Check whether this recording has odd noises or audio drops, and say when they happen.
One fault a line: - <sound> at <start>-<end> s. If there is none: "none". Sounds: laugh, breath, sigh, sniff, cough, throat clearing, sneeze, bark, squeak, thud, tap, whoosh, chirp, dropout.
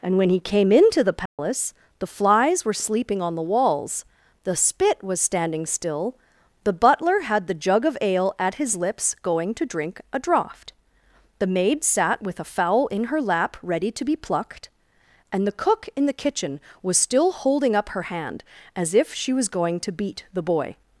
- dropout at 1.3-1.4 s